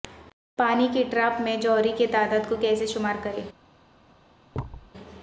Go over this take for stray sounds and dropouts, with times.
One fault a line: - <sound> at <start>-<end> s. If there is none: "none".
- thud at 4.5-4.9 s